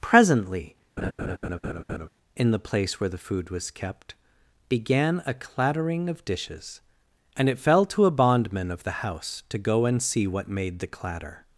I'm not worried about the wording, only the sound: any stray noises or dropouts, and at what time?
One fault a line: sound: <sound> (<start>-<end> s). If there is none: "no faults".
sound: laugh (1.0-2.1 s)